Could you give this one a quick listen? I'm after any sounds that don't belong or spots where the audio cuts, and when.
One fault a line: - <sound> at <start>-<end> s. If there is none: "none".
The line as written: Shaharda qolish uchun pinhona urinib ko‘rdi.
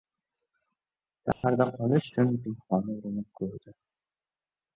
- dropout at 1.3-1.4 s